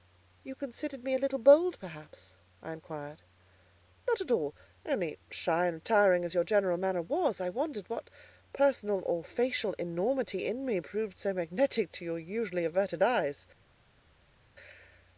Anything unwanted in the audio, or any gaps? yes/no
no